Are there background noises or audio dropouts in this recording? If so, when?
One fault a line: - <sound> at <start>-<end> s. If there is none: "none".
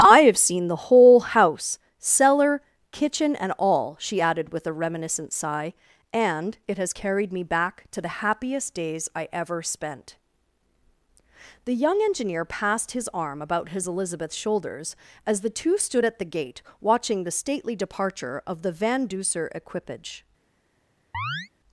- chirp at 21.1-21.5 s